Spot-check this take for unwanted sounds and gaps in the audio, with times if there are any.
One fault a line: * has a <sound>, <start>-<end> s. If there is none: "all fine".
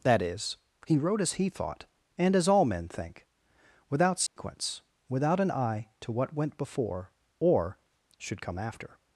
* has a dropout, 4.3-4.4 s